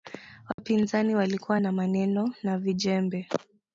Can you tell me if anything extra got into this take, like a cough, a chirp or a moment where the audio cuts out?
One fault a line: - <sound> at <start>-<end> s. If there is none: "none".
- dropout at 0.5-0.6 s